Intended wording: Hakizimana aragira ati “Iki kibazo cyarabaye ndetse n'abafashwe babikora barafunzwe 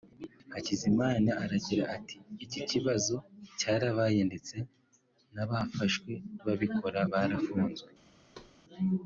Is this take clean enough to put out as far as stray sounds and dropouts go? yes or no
no